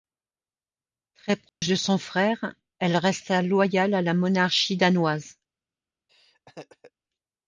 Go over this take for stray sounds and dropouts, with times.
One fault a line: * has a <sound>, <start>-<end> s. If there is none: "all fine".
* has a dropout, 1.5-1.6 s
* has a laugh, 6.1-6.9 s